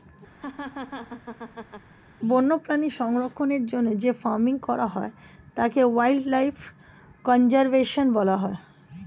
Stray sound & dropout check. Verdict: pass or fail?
fail